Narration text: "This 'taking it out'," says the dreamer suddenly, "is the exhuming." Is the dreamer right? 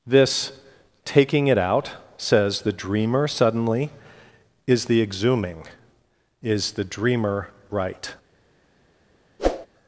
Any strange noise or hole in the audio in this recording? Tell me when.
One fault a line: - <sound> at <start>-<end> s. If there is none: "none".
- whoosh at 9.4-9.7 s